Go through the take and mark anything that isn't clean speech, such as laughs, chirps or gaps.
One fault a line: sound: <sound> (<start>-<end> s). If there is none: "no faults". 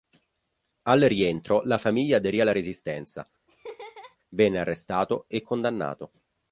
sound: laugh (3.5-4.2 s)